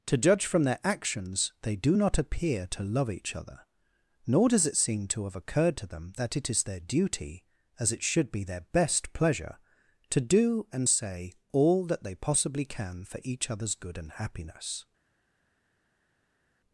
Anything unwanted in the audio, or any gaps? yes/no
no